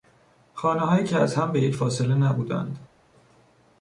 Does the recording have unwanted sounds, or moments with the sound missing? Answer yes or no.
no